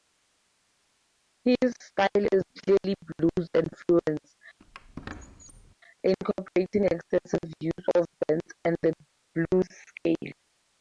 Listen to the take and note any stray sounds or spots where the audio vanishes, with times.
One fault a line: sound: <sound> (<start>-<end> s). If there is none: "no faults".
sound: squeak (4.6-5.7 s)